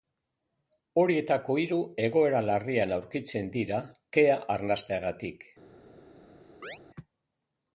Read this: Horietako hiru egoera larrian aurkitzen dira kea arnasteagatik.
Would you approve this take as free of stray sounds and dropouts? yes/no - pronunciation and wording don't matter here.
no